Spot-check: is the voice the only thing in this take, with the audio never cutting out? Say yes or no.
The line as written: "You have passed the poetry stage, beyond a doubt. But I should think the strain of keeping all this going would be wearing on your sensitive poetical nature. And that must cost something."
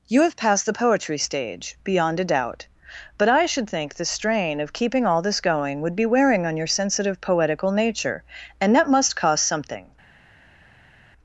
yes